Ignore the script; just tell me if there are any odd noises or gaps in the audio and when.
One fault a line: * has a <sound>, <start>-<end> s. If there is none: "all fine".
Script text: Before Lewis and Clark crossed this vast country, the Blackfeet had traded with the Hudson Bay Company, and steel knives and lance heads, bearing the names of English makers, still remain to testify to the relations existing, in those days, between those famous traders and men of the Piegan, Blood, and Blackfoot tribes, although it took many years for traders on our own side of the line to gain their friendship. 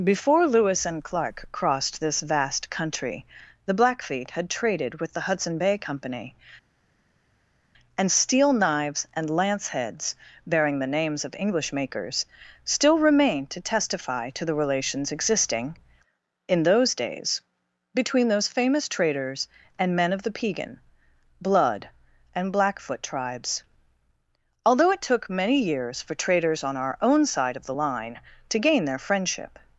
all fine